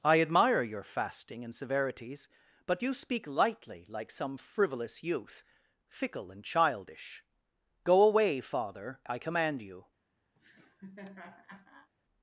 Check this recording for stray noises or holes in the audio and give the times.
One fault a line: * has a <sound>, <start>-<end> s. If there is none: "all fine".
* has a laugh, 10.3-11.9 s